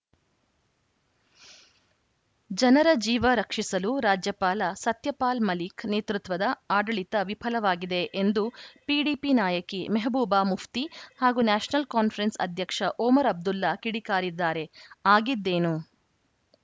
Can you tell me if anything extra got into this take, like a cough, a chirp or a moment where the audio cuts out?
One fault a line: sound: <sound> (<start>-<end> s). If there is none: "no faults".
no faults